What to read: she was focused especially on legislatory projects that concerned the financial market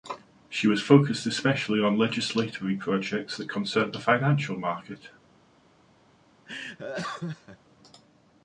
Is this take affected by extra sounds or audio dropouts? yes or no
yes